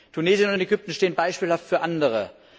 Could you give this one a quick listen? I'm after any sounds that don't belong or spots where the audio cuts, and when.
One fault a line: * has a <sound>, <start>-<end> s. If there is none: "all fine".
all fine